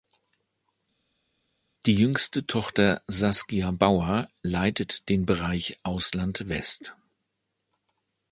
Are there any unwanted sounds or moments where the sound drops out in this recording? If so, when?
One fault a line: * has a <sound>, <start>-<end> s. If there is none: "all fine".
all fine